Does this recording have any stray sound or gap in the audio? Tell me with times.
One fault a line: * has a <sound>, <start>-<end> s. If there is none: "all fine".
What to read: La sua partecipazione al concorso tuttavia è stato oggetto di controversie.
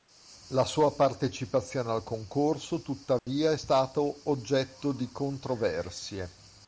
* has a dropout, 3.2-3.3 s